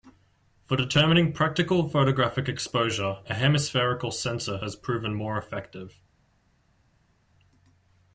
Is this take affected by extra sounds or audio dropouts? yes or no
no